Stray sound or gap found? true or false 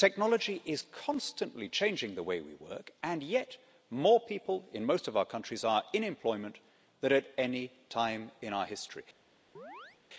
true